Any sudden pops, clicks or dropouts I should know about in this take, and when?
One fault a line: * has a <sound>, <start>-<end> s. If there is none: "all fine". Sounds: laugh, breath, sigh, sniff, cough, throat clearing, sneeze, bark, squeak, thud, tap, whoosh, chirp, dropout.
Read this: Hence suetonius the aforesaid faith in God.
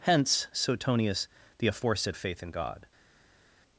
all fine